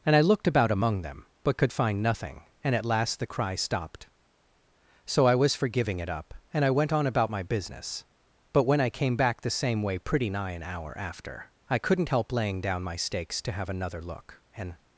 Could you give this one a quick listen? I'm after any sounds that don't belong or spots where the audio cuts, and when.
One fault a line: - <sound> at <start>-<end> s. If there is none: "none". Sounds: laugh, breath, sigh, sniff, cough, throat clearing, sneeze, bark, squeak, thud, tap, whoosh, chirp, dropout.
none